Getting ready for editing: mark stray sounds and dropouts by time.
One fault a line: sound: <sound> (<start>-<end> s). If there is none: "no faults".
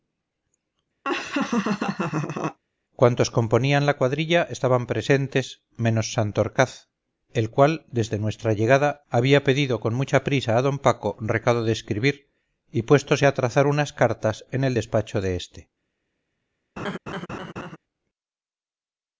sound: laugh (1.0-2.6 s)
sound: laugh (16.8-17.8 s)